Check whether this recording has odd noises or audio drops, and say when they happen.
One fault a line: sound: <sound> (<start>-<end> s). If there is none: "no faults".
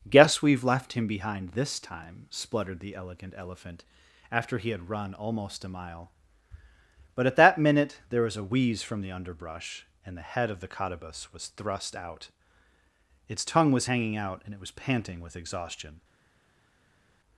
no faults